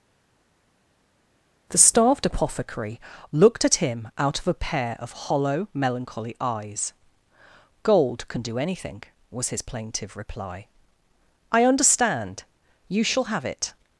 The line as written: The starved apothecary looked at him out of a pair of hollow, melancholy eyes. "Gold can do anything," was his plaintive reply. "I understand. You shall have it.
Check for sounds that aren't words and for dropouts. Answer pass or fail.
pass